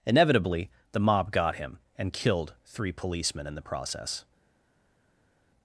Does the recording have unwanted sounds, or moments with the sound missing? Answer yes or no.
no